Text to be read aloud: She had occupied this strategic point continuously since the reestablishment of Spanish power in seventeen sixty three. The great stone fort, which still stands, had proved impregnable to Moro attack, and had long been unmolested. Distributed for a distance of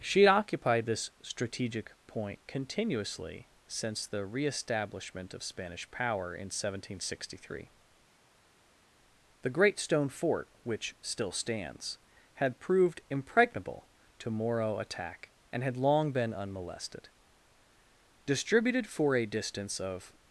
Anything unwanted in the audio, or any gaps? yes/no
no